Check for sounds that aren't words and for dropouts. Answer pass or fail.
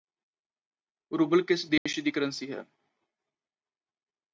fail